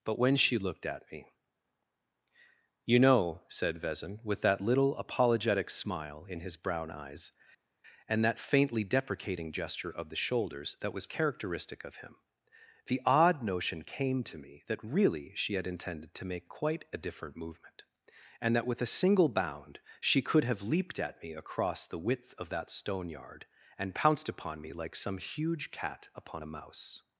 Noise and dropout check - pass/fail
pass